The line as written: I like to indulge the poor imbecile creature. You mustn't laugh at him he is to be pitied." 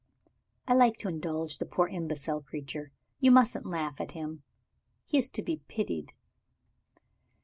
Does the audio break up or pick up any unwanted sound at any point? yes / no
no